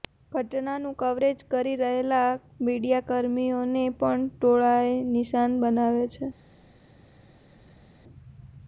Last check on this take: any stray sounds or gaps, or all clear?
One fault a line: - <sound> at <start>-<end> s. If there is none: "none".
none